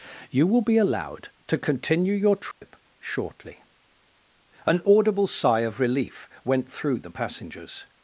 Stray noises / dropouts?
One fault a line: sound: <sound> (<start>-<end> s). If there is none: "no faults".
sound: dropout (2.5-2.6 s)